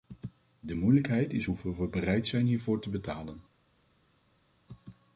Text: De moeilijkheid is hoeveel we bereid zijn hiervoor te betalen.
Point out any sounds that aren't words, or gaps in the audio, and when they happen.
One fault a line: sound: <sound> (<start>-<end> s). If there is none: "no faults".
no faults